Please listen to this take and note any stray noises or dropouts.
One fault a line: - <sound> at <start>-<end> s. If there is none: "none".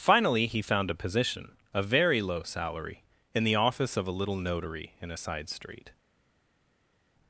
none